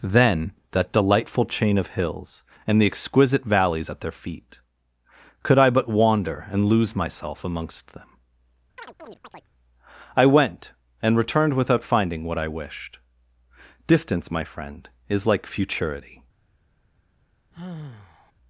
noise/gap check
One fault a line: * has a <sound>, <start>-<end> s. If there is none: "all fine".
* has a chirp, 8.8-9.5 s
* has a sigh, 17.5-18.3 s